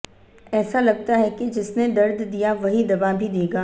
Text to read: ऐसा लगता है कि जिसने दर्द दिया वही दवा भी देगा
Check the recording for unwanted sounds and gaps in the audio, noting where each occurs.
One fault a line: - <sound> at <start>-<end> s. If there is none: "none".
none